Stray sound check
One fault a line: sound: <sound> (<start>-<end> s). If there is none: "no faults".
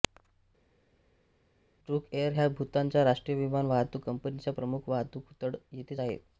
no faults